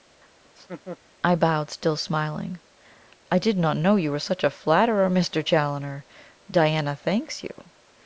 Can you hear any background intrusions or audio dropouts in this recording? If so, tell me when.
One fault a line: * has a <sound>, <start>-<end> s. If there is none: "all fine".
* has a laugh, 0.4-1.0 s